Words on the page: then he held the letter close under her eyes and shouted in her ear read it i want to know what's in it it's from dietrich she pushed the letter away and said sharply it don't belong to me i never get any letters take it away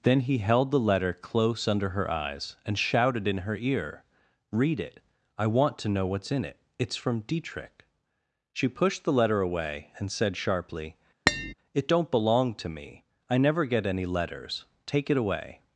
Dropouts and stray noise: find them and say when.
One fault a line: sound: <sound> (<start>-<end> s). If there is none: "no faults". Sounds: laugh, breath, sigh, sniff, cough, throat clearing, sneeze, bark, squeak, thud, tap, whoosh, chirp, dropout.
sound: tap (11.3-11.5 s)